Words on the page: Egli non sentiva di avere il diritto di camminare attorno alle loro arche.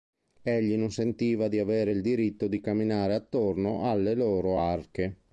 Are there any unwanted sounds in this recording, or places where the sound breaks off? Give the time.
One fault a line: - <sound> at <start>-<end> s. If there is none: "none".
none